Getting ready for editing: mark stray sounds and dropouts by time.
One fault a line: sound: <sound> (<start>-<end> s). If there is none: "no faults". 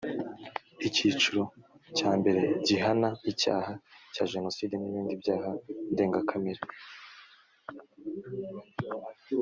no faults